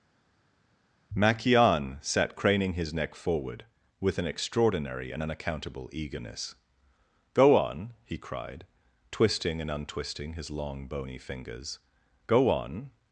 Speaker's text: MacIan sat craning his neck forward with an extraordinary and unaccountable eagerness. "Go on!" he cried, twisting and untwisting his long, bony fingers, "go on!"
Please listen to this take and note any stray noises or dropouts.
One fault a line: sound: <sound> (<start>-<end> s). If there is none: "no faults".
no faults